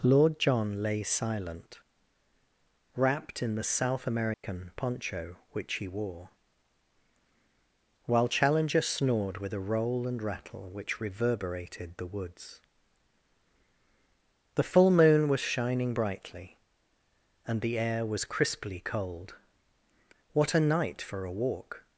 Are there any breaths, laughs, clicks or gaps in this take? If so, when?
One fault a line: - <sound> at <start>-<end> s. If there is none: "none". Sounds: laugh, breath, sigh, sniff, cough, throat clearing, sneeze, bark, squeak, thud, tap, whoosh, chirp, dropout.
- dropout at 4.3-4.4 s